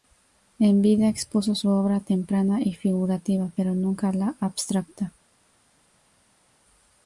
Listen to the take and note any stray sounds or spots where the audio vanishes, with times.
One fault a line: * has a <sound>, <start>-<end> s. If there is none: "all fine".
all fine